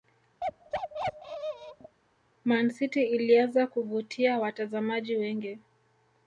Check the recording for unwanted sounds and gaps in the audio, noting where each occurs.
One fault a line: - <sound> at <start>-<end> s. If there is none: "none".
- bark at 0.4-2.0 s